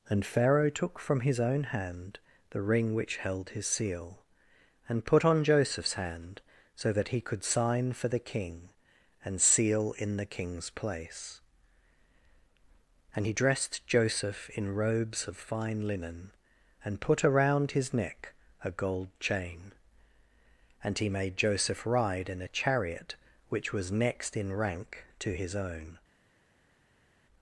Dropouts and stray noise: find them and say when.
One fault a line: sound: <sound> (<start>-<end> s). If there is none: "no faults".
no faults